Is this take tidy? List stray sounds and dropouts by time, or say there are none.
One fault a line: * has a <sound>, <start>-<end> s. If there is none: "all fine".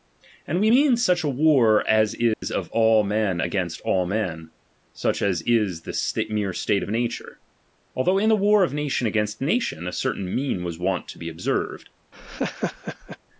* has a dropout, 2.3-2.4 s
* has a laugh, 12.1-13.2 s